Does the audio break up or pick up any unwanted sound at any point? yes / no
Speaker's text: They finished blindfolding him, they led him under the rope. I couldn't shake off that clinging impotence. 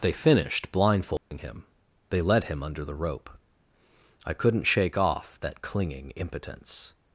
yes